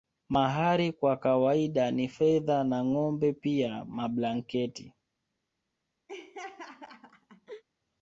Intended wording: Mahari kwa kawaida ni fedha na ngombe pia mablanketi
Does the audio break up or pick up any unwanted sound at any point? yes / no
yes